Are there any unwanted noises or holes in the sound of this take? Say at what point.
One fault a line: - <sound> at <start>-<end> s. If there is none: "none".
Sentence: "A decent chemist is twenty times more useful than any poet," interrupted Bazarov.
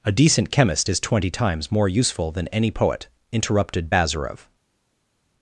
none